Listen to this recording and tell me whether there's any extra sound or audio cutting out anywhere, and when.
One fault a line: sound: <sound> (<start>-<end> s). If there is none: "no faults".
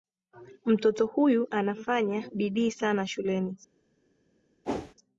sound: whoosh (4.6-4.9 s)